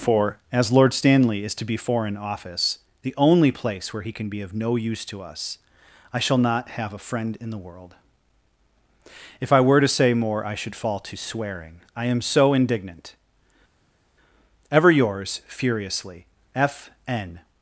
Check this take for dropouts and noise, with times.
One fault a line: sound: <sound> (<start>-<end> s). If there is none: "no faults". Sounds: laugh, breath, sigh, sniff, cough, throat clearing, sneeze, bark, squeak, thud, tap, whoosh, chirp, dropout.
no faults